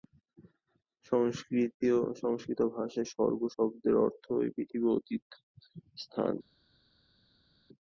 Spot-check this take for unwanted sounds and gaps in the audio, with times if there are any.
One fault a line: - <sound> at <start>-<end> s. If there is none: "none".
none